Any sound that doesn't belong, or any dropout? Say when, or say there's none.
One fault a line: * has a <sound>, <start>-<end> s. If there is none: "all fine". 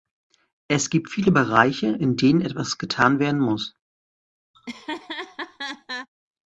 * has a laugh, 4.5-6.1 s